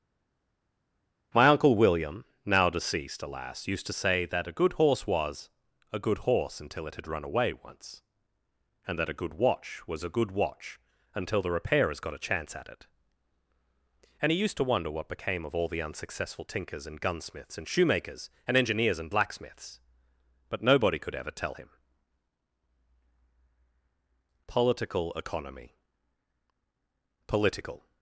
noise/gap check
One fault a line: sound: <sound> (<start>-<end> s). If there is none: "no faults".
no faults